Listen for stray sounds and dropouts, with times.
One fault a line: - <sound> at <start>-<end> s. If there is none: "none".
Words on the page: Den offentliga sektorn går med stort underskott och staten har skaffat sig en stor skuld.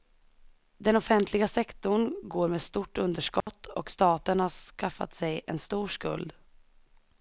- dropout at 3.4-3.5 s